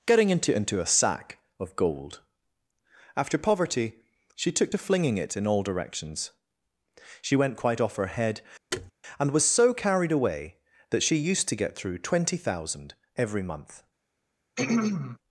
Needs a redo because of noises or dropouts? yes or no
yes